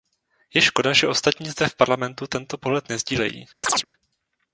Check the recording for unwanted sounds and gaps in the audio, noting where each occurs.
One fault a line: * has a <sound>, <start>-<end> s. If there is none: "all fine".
* has a chirp, 3.6-3.9 s